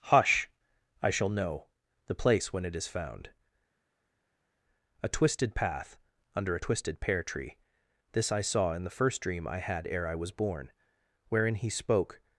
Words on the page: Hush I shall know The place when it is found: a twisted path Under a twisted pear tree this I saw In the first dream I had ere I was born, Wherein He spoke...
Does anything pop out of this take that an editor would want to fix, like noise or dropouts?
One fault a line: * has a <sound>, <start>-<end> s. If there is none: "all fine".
all fine